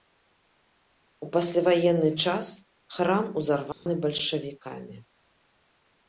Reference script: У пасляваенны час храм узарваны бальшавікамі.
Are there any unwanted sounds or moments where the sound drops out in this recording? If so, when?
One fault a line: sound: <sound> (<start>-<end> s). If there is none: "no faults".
sound: dropout (3.7-3.9 s)